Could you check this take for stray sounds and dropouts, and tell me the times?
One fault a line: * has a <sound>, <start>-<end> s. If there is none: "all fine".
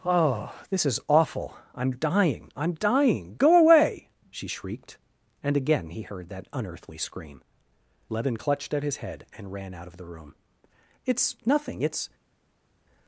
all fine